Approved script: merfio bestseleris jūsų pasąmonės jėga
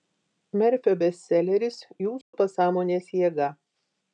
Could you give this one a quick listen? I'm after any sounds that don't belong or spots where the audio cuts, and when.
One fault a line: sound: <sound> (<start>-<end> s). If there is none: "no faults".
sound: dropout (2.2-2.3 s)